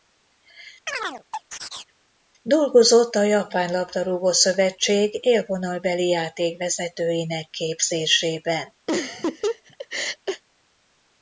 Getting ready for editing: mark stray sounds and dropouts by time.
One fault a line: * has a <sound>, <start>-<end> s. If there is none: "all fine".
* has a chirp, 0.9-1.9 s
* has a laugh, 8.9-10.4 s